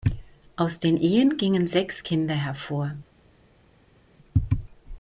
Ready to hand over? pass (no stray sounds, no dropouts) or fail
pass